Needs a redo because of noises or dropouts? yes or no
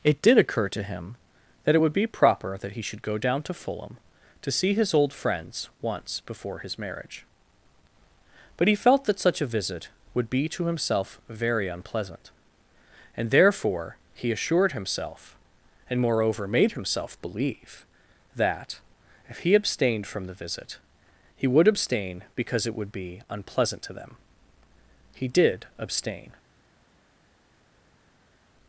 no